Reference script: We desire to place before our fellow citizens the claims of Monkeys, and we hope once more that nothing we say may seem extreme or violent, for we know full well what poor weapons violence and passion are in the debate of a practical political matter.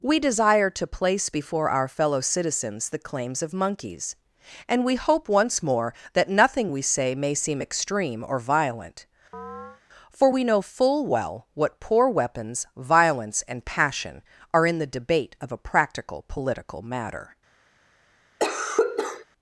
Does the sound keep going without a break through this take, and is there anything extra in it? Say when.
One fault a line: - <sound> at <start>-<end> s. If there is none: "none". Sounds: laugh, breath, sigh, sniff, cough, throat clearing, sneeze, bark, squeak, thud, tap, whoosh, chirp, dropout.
- chirp at 9.3-9.8 s
- cough at 18.4-19.3 s